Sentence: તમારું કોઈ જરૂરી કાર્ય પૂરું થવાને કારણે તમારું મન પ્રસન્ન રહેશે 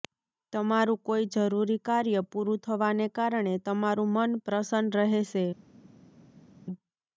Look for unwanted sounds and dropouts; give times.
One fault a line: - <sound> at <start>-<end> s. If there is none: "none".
none